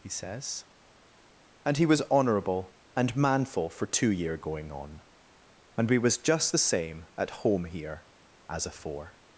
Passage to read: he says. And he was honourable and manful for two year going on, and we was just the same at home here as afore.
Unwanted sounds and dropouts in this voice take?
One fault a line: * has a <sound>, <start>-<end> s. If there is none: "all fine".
all fine